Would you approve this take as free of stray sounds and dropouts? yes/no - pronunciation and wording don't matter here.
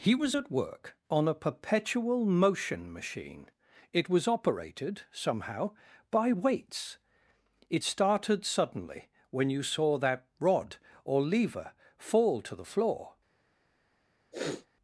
no